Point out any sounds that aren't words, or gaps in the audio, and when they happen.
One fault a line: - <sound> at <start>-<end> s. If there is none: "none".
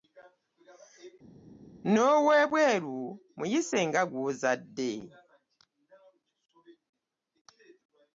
none